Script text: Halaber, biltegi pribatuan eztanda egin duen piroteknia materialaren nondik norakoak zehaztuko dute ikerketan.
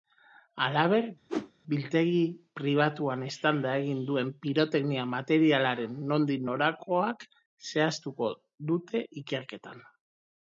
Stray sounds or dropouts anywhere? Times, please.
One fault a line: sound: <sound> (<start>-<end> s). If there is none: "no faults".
sound: whoosh (1.3-1.5 s)